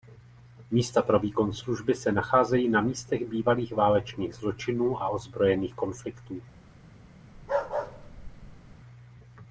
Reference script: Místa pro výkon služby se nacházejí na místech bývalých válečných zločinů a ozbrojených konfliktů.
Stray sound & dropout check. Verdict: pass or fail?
fail